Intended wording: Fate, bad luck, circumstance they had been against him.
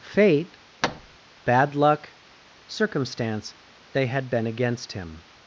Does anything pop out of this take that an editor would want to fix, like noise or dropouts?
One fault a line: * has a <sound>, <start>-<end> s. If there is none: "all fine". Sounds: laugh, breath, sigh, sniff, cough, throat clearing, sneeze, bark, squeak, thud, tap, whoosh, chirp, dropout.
* has a thud, 0.8-1.2 s